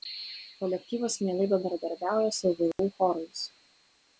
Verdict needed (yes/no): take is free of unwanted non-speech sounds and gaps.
no